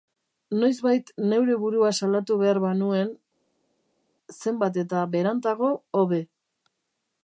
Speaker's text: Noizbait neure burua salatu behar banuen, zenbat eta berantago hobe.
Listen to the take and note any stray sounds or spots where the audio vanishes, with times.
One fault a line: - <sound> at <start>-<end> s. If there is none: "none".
none